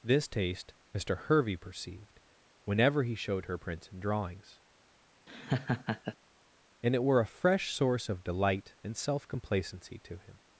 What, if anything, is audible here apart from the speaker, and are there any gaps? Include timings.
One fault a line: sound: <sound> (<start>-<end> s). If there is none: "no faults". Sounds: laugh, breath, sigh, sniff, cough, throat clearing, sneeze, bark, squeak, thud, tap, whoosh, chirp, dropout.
sound: laugh (5.3-6.2 s)